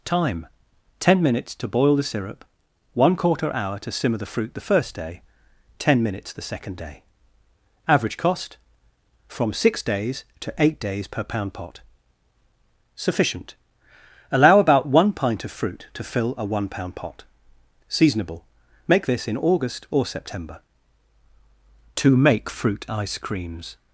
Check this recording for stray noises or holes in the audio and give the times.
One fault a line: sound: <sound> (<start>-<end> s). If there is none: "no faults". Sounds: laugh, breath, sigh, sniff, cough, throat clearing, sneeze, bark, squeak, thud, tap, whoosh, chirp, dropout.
no faults